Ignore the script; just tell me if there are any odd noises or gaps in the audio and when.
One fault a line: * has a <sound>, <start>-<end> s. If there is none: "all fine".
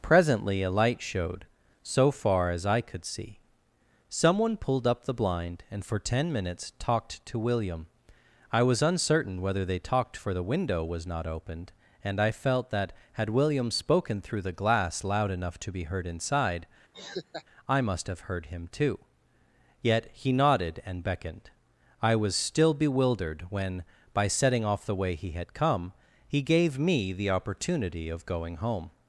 * has a laugh, 16.9-17.4 s